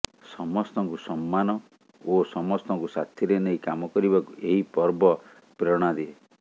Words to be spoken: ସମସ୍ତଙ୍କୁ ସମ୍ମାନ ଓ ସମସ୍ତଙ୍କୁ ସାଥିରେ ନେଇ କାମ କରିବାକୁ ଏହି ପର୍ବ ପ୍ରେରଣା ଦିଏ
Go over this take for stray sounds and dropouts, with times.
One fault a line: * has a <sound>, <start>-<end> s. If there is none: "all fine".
all fine